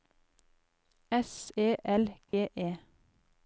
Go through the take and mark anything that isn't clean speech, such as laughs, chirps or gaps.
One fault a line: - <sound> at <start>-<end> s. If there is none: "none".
- dropout at 2.3-2.3 s